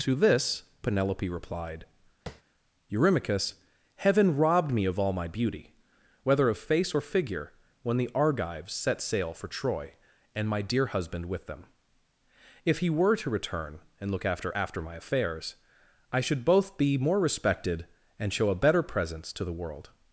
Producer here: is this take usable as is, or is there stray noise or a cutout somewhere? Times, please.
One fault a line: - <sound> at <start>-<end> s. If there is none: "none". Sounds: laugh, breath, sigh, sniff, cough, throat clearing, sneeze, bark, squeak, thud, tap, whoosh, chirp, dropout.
- tap at 2.3-2.4 s